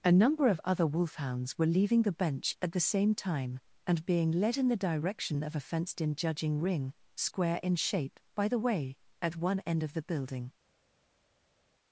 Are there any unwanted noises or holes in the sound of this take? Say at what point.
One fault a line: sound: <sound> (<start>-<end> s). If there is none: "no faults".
no faults